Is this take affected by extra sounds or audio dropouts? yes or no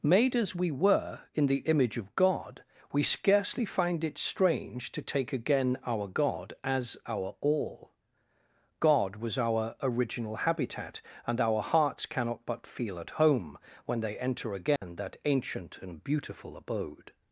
yes